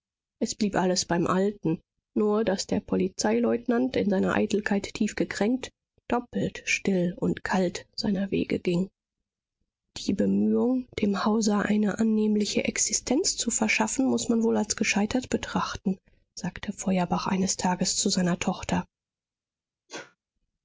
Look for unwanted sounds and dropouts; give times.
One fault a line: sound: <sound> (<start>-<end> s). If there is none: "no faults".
sound: sneeze (19.9-20.2 s)